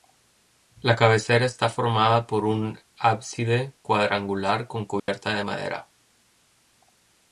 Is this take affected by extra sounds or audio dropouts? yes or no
yes